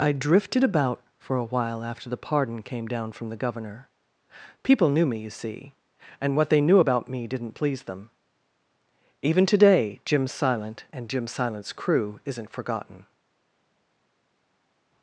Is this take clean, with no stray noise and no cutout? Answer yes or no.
yes